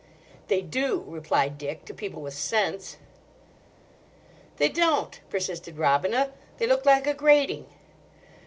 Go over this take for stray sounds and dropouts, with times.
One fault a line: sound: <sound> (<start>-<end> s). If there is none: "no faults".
no faults